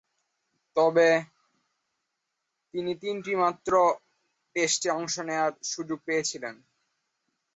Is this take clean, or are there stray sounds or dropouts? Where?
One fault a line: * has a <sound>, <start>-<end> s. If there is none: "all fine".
all fine